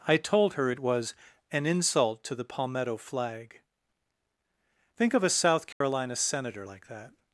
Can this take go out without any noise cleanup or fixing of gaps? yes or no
no